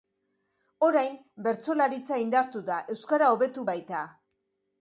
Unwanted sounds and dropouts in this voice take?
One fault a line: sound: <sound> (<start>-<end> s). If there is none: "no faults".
no faults